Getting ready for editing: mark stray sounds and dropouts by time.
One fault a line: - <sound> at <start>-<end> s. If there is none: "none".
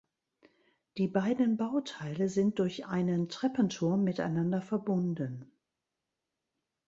none